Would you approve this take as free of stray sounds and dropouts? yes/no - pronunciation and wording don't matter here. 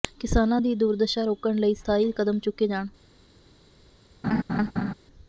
no